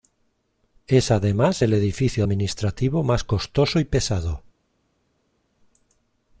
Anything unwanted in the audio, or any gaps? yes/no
no